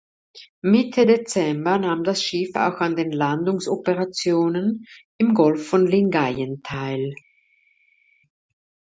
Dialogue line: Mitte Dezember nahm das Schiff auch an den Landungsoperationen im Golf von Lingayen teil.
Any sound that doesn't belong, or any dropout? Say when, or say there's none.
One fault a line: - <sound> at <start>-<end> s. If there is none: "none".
none